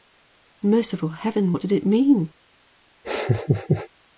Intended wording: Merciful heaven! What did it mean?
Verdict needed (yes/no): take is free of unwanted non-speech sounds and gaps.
no